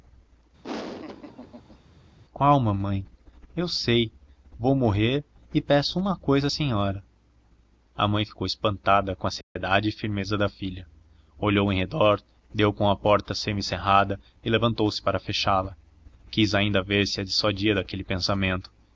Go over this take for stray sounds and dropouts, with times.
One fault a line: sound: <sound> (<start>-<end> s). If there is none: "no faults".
sound: laugh (0.6-1.8 s)
sound: dropout (9.4-9.6 s)